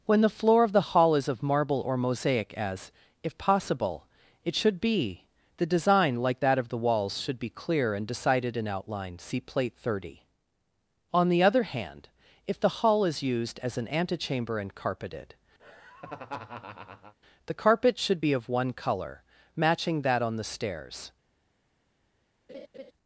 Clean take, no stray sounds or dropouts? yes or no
no